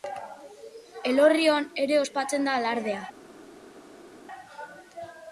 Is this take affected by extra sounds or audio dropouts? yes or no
no